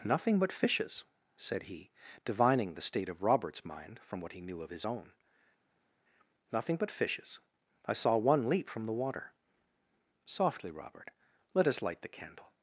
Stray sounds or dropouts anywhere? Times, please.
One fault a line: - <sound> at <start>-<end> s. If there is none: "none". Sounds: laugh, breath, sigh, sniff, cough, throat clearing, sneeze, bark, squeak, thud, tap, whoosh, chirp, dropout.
none